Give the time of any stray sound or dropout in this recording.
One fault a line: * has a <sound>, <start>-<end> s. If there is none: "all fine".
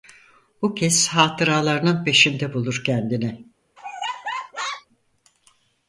* has a laugh, 3.8-4.9 s